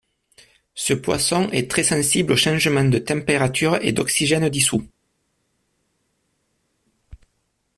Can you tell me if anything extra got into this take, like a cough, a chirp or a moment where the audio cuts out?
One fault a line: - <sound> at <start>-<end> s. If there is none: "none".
none